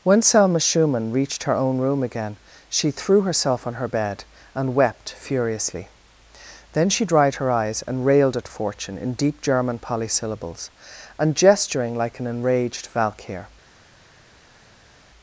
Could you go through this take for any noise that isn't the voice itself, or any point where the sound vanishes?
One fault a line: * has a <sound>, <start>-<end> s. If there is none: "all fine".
all fine